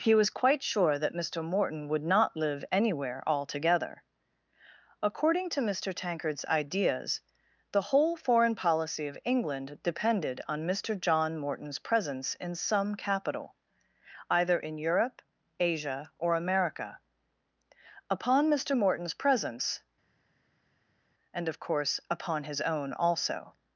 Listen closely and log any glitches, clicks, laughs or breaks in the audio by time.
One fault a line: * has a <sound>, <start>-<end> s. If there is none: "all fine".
all fine